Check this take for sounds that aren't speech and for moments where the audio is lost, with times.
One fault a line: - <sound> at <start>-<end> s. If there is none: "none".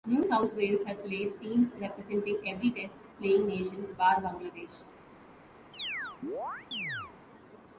- chirp at 5.7-7.1 s